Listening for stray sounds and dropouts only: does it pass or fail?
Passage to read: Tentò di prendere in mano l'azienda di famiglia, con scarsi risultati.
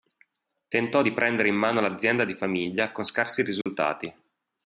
fail